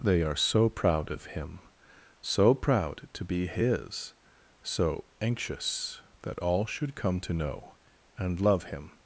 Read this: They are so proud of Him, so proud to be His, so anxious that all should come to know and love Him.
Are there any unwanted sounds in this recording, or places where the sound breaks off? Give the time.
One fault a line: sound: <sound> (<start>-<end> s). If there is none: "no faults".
no faults